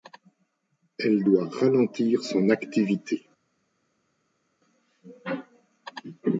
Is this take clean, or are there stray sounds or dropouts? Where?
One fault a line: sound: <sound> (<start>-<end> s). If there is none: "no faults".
no faults